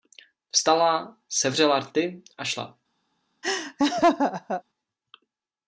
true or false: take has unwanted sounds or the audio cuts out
true